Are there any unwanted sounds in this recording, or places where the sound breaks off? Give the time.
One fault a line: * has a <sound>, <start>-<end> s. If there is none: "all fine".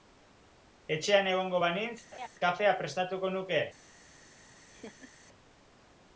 * has a laugh, 2.1-2.3 s
* has a laugh, 4.4-5.1 s